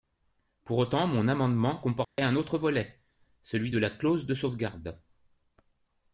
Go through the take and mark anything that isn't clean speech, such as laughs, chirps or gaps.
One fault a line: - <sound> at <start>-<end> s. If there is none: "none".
- dropout at 2.0-2.2 s